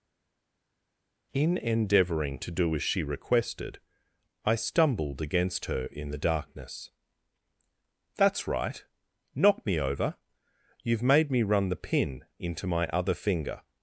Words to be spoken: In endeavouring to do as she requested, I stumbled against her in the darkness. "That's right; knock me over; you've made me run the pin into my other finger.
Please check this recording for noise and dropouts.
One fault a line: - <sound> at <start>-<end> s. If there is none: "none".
none